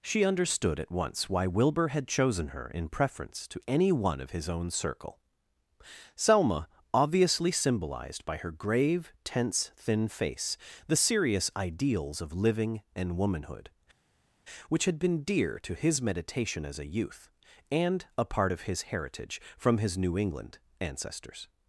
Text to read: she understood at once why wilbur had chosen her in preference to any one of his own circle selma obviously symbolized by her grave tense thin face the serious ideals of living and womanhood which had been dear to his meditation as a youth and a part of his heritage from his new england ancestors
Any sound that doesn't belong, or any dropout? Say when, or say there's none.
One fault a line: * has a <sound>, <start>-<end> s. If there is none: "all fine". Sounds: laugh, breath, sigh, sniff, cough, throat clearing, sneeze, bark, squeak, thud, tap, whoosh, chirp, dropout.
all fine